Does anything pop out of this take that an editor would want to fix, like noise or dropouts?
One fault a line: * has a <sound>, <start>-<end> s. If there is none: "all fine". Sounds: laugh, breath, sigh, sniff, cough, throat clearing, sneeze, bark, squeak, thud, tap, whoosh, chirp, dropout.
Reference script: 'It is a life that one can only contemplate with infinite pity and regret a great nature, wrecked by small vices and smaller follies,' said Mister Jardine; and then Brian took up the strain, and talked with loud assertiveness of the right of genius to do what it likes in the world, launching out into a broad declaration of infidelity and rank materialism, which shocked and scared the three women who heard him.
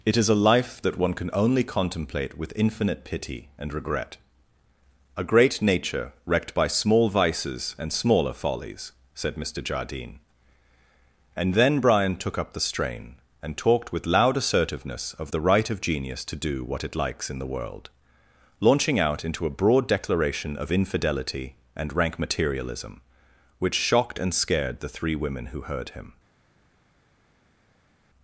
all fine